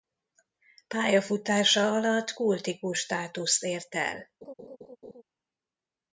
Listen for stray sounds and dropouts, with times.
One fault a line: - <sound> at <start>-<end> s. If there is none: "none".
- laugh at 4.4-5.2 s